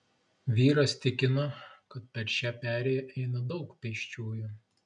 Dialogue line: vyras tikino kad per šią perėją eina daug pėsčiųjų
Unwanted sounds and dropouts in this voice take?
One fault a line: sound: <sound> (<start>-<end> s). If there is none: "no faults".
no faults